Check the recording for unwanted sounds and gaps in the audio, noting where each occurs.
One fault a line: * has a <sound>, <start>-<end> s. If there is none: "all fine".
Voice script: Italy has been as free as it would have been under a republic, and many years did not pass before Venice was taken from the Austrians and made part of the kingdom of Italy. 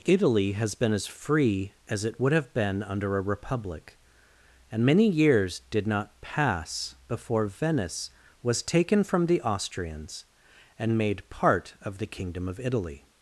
all fine